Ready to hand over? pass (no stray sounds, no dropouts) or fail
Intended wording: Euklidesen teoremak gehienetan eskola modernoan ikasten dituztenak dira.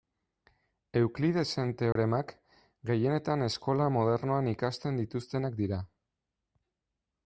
fail